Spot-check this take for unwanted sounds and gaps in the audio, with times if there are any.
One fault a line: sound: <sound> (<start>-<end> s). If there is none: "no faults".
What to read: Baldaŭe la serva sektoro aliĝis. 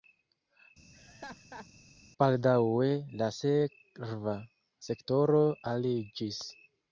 sound: laugh (0.9-1.7 s)